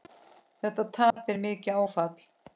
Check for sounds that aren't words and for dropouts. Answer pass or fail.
fail